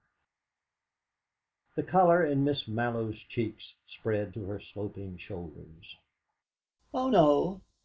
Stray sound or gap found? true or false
false